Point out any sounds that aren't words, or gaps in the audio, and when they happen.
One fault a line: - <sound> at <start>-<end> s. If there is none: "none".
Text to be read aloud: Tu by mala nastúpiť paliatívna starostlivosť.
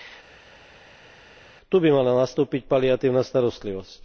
none